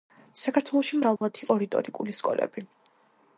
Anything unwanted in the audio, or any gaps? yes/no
yes